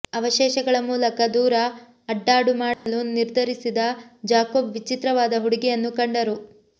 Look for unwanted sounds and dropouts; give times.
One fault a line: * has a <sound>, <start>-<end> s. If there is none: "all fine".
* has a dropout, 2.7-2.9 s